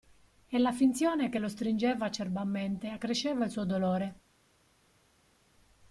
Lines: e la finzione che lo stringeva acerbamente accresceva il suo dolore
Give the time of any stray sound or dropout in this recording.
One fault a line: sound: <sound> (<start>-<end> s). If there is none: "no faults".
no faults